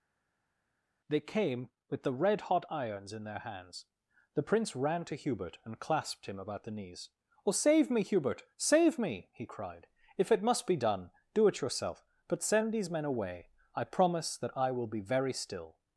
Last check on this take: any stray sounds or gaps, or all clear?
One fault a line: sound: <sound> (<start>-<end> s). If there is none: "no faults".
no faults